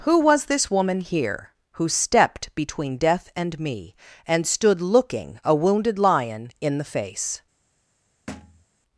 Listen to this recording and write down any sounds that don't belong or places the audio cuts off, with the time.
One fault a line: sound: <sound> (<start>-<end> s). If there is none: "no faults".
sound: thud (8.3-8.7 s)